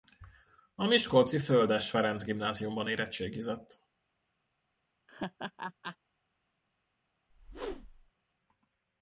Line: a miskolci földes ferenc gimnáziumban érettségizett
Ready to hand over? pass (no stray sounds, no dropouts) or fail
fail